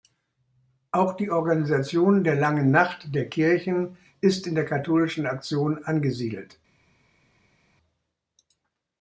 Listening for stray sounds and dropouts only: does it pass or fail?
pass